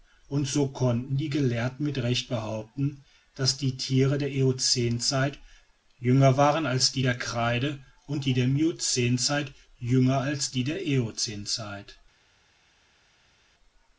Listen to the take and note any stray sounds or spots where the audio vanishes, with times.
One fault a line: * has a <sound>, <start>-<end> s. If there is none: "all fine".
all fine